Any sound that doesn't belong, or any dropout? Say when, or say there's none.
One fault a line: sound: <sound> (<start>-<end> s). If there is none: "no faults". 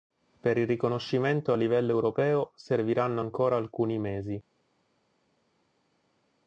no faults